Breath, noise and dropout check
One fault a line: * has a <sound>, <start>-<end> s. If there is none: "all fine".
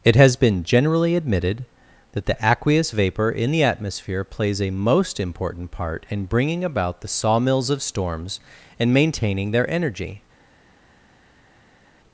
all fine